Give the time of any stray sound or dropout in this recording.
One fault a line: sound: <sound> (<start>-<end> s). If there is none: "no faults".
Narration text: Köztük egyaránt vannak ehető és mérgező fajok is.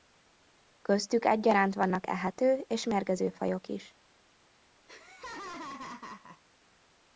sound: laugh (4.9-6.4 s)